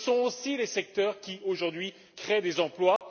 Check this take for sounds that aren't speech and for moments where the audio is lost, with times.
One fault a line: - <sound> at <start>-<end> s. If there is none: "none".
- dropout at 3.0-3.0 s